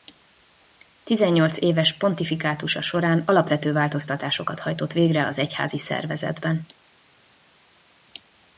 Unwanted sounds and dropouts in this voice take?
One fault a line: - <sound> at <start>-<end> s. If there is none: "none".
none